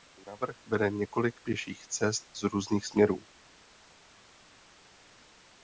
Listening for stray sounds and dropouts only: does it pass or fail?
pass